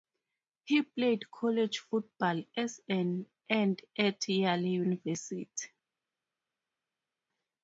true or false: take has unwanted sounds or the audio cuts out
false